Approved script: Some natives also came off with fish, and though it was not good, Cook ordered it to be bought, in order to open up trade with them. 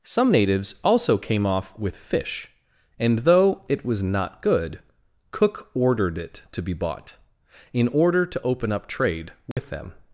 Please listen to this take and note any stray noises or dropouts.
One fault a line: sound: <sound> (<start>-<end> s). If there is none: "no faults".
sound: dropout (9.5-9.6 s)